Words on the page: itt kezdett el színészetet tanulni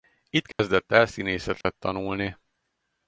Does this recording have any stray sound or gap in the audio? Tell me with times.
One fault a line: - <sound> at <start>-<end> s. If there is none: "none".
- dropout at 0.5-0.6 s
- dropout at 1.6-1.6 s